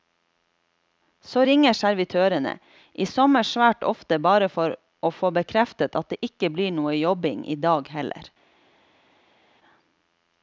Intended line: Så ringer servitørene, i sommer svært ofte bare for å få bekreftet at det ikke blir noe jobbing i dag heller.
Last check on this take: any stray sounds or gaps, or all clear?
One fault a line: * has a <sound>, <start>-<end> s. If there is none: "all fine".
all fine